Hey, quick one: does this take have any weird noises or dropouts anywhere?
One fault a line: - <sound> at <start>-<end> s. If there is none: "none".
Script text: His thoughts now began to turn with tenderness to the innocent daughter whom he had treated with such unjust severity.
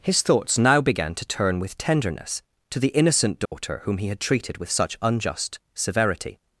- dropout at 3.5-3.5 s